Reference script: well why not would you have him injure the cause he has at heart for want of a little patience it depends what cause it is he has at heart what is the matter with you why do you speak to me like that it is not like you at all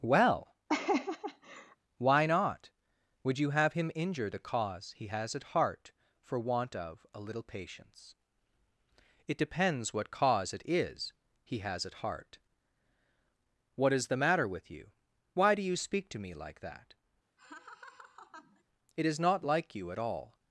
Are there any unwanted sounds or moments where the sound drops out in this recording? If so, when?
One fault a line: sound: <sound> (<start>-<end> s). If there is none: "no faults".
sound: laugh (0.7-1.8 s)
sound: laugh (17.4-18.6 s)